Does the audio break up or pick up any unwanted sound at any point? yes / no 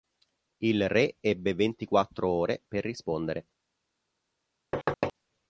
yes